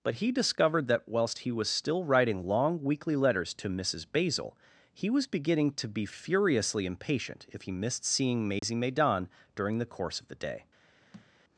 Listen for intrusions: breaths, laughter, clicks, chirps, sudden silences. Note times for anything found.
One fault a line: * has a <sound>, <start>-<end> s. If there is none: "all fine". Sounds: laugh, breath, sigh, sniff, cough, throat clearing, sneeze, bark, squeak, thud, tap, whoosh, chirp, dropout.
* has a dropout, 8.6-8.6 s
* has a thud, 11.1-11.3 s